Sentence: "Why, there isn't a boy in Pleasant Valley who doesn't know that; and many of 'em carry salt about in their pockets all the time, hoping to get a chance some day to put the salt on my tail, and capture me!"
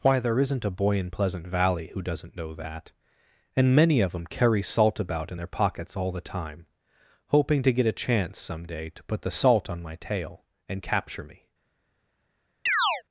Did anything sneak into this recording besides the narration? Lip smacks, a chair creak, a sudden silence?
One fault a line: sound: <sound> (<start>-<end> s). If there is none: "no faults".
sound: chirp (12.7-13.0 s)